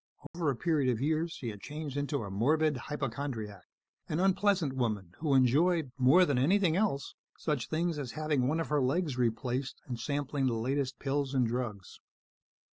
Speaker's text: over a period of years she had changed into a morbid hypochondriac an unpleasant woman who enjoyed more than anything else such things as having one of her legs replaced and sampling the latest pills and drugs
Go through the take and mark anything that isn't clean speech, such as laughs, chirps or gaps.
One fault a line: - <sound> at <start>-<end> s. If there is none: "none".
- dropout at 0.3-0.3 s